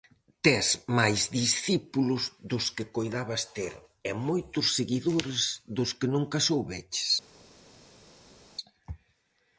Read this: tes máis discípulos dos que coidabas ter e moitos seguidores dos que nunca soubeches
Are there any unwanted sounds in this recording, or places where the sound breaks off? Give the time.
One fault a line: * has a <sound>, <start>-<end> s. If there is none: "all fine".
all fine